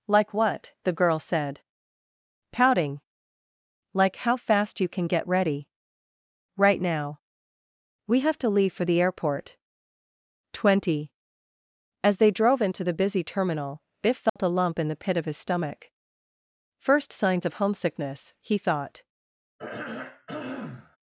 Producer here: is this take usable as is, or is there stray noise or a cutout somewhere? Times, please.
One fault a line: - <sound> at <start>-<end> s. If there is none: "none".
- dropout at 14.3-14.4 s
- throat clearing at 19.6-21.0 s